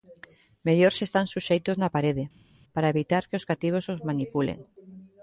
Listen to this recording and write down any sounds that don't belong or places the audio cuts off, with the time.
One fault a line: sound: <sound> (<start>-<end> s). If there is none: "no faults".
no faults